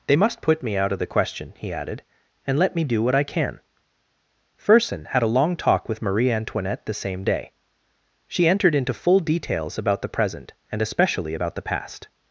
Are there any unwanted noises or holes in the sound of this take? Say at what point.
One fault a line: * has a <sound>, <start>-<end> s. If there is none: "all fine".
all fine